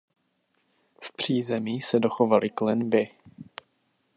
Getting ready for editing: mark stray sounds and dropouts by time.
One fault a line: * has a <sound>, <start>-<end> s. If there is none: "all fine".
all fine